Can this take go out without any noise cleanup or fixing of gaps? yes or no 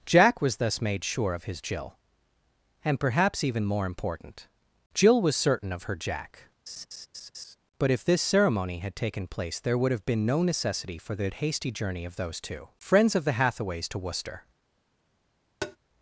no